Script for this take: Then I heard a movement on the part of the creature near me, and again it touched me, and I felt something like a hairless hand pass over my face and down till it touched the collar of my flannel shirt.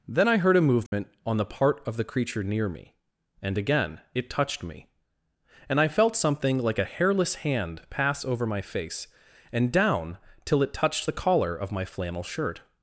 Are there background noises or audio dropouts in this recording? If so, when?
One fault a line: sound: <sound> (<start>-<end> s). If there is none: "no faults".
sound: dropout (0.9-0.9 s)